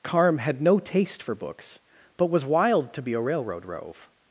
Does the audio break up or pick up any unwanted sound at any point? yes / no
no